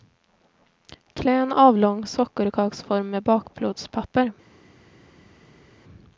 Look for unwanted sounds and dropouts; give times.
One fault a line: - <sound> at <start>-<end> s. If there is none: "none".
none